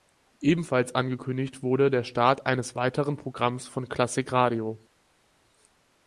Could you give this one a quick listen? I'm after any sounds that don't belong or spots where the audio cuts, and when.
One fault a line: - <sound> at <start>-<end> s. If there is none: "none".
none